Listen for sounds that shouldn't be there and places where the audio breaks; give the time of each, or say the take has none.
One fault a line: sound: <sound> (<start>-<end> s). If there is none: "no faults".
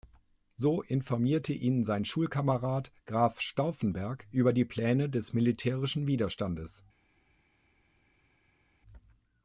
no faults